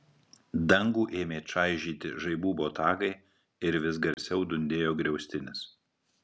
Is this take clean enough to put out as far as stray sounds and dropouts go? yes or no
no